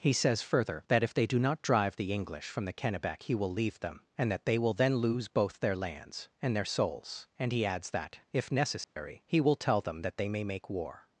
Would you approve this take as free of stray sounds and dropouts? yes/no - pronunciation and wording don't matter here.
no